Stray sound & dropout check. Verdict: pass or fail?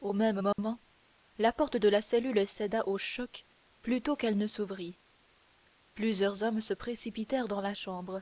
fail